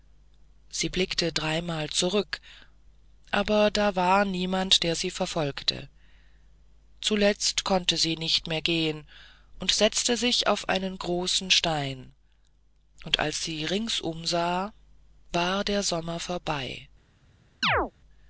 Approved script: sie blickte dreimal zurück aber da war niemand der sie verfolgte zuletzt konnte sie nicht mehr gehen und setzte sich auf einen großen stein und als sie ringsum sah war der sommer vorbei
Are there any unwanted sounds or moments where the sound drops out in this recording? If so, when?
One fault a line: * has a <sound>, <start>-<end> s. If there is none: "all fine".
* has a chirp, 17.6-17.9 s